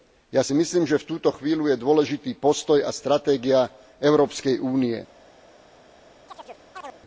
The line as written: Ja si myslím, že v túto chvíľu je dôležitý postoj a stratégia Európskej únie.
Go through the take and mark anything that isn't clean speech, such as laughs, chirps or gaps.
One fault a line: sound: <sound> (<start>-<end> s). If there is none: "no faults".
sound: chirp (6.3-7.0 s)